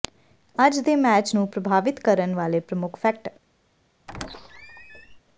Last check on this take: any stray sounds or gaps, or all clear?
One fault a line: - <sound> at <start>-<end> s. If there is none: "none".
- squeak at 4.1-5.2 s